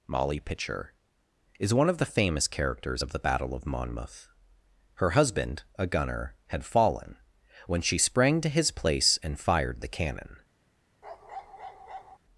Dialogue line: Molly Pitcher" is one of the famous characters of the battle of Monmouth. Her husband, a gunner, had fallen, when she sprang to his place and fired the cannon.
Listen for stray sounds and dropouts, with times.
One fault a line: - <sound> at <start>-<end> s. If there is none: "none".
- bark at 11.0-12.2 s